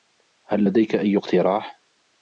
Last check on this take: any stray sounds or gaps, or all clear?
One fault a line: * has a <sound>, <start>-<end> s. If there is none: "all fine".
all fine